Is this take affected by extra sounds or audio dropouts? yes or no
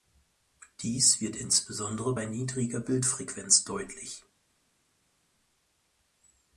no